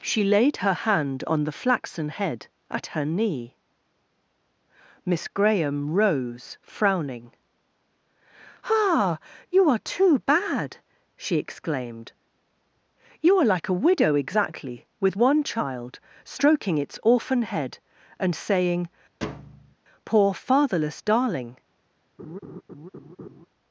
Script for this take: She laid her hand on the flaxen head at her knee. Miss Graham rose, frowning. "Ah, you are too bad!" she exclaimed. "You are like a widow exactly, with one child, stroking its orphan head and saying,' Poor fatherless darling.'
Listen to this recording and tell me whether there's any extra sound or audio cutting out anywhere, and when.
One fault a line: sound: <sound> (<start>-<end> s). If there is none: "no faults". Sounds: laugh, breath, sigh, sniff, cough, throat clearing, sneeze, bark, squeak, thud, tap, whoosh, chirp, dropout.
sound: thud (19.2-19.8 s)
sound: laugh (22.2-23.5 s)